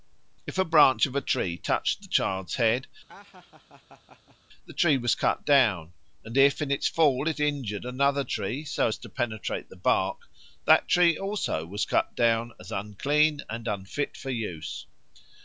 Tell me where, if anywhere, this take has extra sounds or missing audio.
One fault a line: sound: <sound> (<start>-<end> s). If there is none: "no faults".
sound: laugh (3.1-4.4 s)